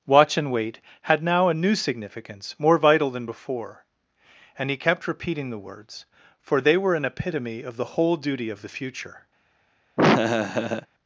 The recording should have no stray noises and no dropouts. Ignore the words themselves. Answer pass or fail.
fail